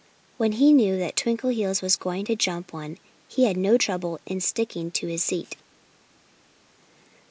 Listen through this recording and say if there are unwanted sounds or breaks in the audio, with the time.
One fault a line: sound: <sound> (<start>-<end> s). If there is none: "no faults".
no faults